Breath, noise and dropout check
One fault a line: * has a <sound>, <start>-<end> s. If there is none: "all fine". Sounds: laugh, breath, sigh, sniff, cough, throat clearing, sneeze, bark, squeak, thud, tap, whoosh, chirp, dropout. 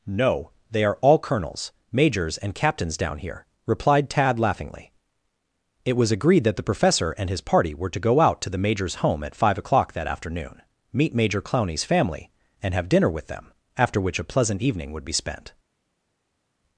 all fine